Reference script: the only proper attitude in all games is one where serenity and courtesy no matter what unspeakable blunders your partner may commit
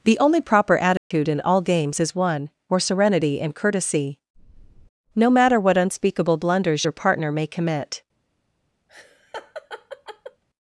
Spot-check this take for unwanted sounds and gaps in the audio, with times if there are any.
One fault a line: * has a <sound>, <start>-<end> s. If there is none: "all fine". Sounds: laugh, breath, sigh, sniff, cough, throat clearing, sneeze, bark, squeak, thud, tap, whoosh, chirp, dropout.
* has a dropout, 1.0-1.1 s
* has a laugh, 8.9-10.4 s